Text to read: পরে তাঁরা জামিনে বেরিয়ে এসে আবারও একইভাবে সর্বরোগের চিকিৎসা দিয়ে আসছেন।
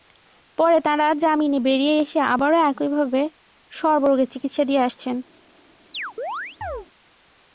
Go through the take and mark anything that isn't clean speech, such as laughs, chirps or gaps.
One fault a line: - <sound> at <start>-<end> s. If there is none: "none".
- chirp at 5.9-6.9 s